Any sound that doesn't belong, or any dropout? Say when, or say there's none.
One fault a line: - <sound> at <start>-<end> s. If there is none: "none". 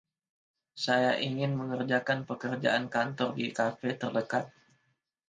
none